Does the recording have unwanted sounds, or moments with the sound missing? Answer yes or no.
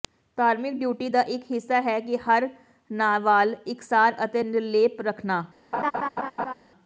yes